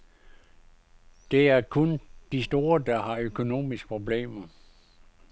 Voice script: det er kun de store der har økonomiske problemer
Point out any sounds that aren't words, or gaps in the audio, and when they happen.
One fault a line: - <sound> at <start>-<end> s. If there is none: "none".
none